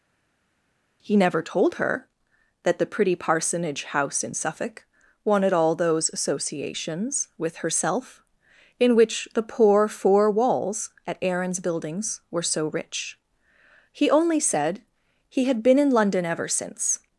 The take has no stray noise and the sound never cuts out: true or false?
true